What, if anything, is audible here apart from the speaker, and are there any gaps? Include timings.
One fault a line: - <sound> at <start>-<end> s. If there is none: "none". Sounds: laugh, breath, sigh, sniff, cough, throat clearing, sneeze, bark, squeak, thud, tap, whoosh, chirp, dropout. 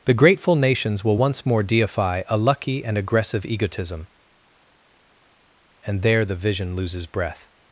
none